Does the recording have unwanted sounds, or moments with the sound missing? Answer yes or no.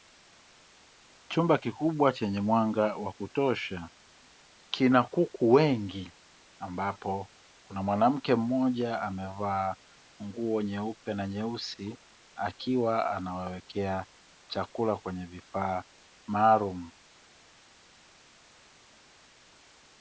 no